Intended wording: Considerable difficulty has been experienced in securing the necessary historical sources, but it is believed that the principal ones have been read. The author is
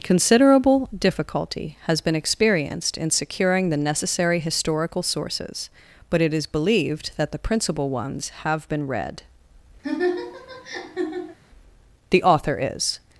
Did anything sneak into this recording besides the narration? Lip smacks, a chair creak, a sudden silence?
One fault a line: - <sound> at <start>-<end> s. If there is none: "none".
- laugh at 9.8-11.4 s